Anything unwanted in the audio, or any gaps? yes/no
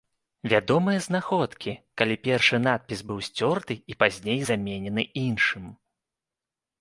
no